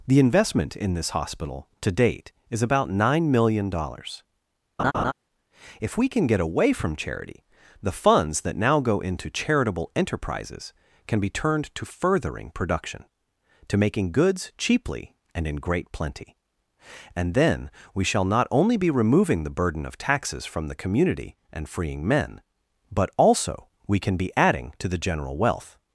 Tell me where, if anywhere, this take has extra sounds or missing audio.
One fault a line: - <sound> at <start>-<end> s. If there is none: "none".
- laugh at 4.8-5.1 s